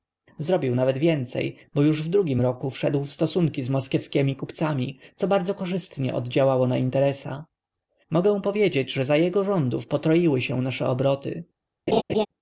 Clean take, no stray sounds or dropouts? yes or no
no